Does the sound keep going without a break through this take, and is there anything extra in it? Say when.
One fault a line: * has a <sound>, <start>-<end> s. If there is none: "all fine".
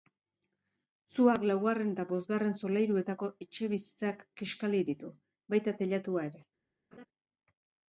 * has a laugh, 6.9-7.1 s